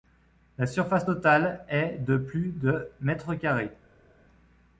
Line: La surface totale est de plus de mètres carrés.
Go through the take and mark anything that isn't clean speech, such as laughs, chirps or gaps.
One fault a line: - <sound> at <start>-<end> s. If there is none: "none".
none